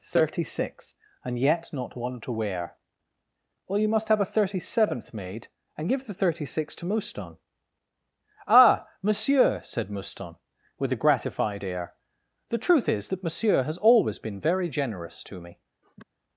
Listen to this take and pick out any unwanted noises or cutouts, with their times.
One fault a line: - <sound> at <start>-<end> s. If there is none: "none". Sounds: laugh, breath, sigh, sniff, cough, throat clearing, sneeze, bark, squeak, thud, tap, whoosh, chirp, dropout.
- sniff at 15.8-16.0 s